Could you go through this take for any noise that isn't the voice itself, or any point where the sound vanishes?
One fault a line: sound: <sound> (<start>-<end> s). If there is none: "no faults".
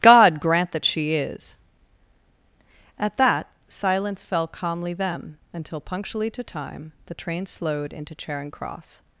no faults